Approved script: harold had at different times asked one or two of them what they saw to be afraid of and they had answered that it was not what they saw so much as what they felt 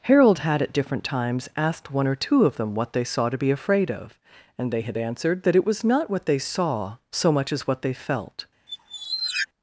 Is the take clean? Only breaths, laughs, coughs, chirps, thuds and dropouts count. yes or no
no